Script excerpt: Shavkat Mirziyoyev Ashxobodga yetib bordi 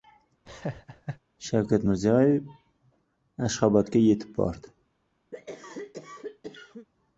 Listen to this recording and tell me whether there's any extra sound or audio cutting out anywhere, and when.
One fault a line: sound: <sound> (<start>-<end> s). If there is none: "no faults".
sound: laugh (0.5-1.2 s)
sound: cough (5.3-6.9 s)